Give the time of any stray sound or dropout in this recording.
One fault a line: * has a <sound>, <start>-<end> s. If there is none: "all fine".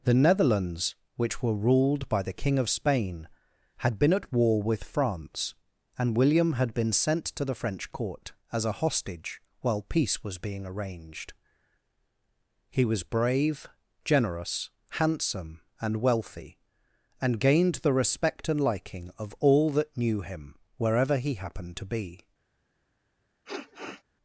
* has a sniff, 23.5-24.0 s